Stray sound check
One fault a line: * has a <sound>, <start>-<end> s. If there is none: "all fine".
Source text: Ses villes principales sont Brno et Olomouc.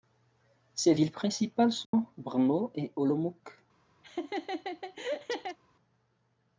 * has a dropout, 1.8-1.9 s
* has a laugh, 4.0-5.6 s